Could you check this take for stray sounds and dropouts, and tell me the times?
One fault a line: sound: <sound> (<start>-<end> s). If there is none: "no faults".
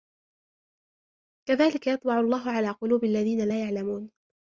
no faults